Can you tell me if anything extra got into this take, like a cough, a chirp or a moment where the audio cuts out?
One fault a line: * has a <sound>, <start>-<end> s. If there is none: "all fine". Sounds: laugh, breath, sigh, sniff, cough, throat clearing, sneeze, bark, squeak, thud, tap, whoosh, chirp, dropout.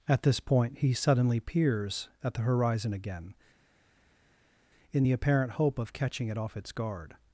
all fine